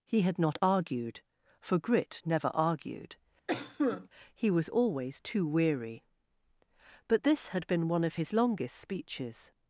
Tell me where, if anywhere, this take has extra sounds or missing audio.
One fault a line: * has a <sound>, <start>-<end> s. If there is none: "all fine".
* has a cough, 3.5-4.1 s